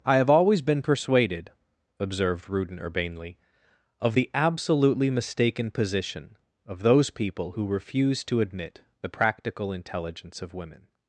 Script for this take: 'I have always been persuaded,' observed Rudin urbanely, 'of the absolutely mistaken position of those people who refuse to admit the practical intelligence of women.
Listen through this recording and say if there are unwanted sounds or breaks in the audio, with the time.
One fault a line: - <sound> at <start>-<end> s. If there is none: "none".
none